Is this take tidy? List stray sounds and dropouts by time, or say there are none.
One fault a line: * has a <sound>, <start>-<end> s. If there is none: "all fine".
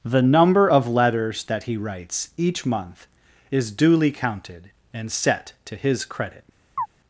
* has a chirp, 6.8-6.9 s